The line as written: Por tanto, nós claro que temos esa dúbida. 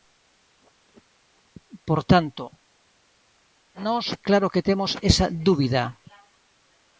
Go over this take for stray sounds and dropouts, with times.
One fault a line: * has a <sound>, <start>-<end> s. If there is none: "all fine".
all fine